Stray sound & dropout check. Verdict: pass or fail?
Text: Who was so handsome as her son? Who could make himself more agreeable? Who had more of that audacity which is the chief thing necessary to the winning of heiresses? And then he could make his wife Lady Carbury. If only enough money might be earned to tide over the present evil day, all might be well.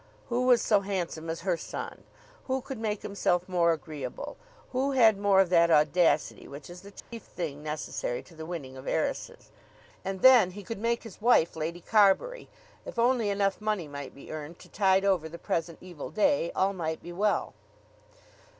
fail